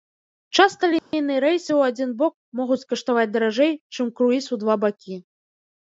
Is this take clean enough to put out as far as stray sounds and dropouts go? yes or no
no